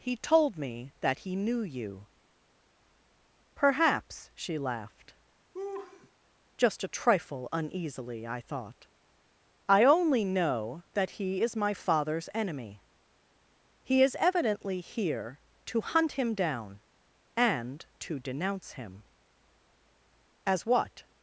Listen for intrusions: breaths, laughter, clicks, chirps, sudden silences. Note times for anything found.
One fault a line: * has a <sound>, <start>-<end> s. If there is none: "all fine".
* has a laugh, 5.5-6.1 s